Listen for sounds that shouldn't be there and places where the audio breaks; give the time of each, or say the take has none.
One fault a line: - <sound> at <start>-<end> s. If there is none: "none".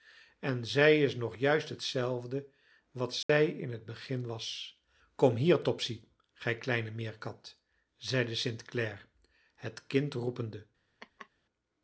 - dropout at 3.2-3.3 s
- laugh at 11.0-11.3 s